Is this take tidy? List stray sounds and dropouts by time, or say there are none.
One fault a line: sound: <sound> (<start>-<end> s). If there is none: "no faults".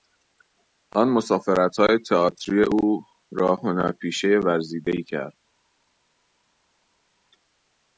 no faults